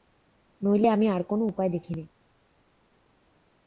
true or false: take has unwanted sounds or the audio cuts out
false